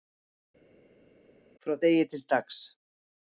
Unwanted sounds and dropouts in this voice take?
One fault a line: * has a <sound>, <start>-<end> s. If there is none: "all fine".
all fine